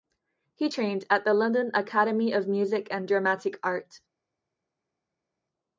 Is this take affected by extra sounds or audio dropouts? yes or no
no